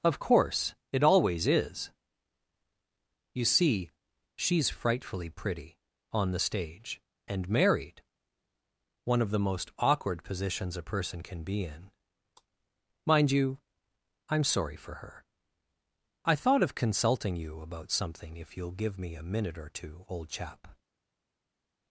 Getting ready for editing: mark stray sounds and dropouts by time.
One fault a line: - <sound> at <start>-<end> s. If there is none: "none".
none